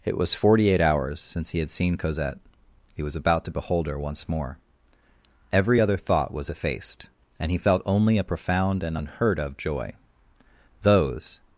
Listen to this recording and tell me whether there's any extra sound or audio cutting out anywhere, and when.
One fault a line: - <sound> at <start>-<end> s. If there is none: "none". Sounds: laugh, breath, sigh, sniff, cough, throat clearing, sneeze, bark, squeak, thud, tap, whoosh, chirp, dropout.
none